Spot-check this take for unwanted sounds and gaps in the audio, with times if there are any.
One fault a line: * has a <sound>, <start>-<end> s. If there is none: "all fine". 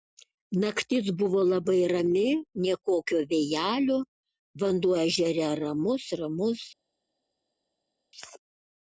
all fine